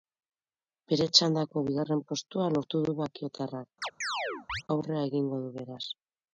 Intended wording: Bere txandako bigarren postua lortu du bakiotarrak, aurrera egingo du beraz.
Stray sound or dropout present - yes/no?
yes